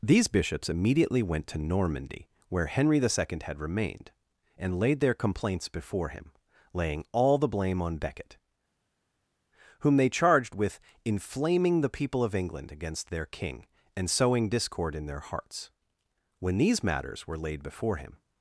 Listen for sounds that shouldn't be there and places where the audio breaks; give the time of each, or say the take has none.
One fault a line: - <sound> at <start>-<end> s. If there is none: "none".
none